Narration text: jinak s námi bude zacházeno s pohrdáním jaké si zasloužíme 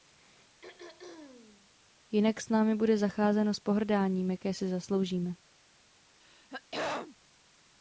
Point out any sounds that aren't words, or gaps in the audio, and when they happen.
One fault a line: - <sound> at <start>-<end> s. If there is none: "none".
- throat clearing at 0.6-1.7 s
- throat clearing at 6.2-7.2 s